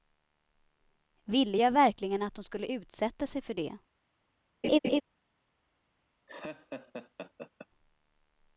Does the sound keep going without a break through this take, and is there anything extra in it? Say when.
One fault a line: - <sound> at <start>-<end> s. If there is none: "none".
- laugh at 4.6-5.0 s
- laugh at 6.3-7.7 s